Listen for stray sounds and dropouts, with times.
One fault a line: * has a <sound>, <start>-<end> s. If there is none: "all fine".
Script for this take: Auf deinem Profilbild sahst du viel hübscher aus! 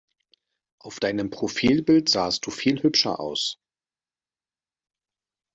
all fine